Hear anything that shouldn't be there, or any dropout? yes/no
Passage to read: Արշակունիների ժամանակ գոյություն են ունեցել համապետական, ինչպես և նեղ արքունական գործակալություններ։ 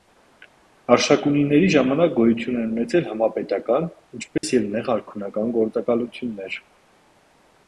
yes